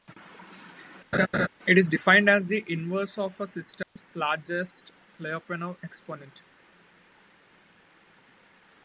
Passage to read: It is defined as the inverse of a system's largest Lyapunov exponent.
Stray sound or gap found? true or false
true